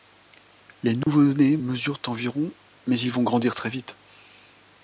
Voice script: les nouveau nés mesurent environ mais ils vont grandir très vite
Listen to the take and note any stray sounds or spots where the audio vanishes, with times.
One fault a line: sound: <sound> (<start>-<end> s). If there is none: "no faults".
sound: dropout (1.0-1.1 s)